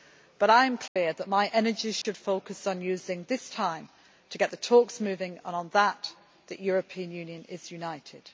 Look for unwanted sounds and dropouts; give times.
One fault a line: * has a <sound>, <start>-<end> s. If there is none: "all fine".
* has a dropout, 0.9-1.0 s
* has a dropout, 2.0-2.0 s